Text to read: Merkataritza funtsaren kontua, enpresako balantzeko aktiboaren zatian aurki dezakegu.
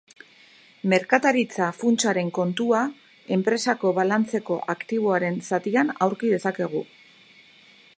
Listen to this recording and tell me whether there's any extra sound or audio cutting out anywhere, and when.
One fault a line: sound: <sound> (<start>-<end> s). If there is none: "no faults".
no faults